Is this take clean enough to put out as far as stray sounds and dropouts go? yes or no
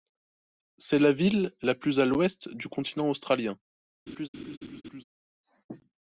no